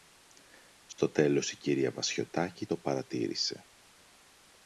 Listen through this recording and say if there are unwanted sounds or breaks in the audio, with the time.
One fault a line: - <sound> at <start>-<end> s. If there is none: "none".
- dropout at 0.9-1.0 s